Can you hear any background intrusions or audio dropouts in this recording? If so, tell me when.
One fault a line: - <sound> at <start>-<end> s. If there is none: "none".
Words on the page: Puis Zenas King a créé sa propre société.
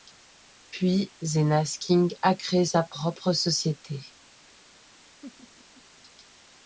- laugh at 5.2-5.8 s